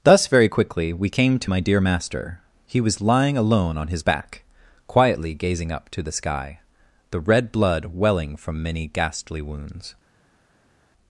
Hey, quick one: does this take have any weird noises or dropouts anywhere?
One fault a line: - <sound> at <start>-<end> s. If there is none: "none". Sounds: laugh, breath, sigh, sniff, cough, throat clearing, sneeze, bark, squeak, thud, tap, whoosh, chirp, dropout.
none